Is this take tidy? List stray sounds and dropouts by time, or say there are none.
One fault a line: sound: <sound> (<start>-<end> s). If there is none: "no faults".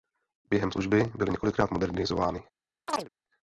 sound: chirp (2.9-3.1 s)